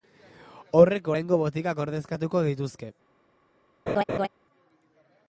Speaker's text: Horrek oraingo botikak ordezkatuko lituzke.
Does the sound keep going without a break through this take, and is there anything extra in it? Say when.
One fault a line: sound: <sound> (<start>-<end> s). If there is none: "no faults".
sound: laugh (3.9-4.3 s)